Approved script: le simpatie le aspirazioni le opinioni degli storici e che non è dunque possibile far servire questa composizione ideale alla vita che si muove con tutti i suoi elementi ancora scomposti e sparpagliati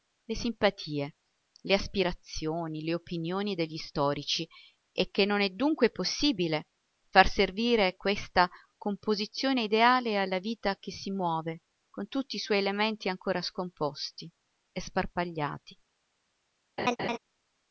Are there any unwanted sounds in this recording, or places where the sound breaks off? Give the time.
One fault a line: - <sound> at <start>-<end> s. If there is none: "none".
- laugh at 16.8-17.2 s